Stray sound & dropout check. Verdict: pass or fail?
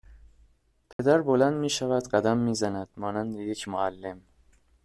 fail